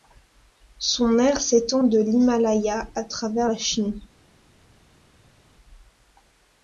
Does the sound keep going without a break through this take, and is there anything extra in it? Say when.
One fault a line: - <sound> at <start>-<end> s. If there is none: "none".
none